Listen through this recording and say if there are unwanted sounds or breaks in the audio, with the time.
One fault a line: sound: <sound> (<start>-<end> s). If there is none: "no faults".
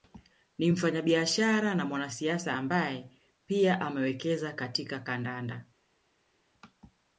no faults